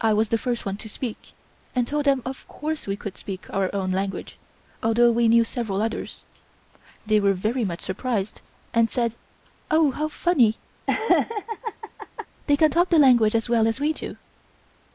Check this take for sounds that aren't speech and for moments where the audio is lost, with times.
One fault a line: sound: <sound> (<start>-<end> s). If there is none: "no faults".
sound: laugh (10.9-12.3 s)